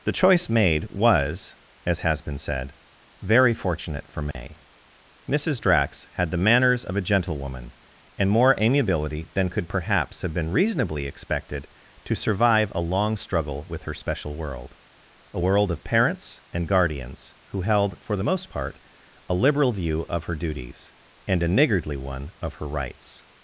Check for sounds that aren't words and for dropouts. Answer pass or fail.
fail